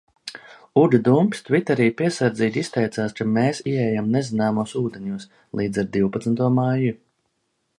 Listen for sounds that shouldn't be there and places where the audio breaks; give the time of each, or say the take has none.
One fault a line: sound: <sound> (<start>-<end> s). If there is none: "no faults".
no faults